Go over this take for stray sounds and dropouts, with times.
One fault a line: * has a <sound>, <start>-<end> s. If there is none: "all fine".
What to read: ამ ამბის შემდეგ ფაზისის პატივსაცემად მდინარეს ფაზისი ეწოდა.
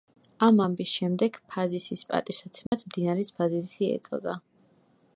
* has a dropout, 2.7-2.7 s